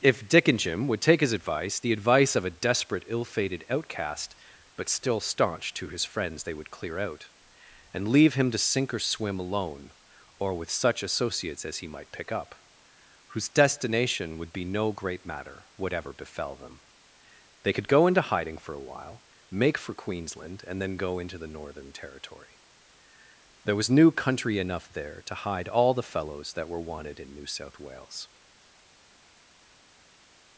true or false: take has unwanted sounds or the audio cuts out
false